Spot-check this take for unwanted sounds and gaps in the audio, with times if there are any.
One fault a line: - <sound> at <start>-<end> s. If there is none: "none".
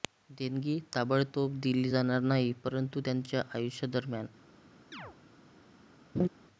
- chirp at 4.9-5.2 s
- laugh at 6.1-6.3 s